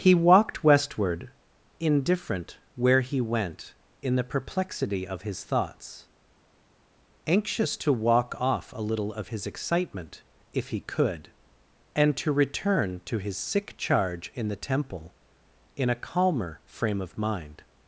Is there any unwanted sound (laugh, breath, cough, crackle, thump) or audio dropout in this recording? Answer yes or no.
no